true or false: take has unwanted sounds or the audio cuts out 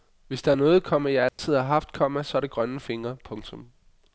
true